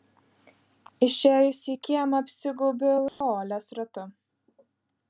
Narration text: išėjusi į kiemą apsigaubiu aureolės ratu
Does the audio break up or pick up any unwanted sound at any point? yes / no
yes